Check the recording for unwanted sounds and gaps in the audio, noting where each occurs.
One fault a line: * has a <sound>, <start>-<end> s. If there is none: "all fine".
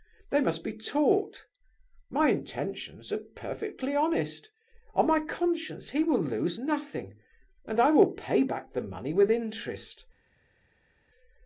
all fine